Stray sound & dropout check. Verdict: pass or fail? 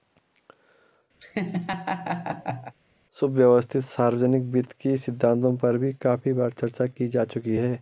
fail